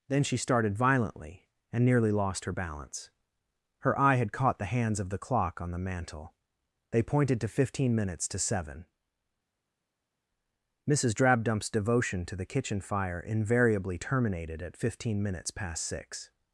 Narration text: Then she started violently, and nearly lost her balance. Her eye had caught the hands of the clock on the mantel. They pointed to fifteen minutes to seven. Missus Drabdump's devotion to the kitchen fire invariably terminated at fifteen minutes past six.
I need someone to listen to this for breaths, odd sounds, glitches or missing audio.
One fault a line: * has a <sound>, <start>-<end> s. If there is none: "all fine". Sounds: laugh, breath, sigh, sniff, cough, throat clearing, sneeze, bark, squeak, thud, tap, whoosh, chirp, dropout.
all fine